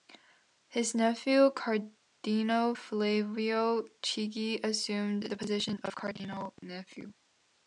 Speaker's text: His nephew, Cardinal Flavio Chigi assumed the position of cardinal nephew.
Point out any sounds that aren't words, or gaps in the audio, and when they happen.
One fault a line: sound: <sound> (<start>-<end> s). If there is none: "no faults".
no faults